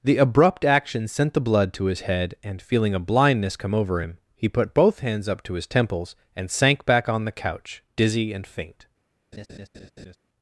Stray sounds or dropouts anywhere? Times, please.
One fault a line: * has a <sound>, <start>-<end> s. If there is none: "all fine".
* has a laugh, 9.3-10.2 s